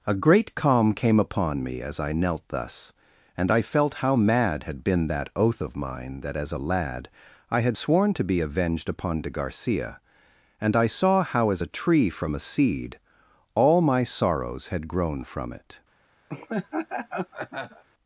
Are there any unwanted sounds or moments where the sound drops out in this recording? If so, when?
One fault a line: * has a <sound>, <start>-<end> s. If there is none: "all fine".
* has a laugh, 16.3-17.8 s